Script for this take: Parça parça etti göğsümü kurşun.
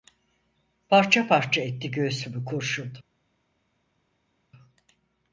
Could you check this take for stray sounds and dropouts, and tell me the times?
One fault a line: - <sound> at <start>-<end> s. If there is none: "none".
none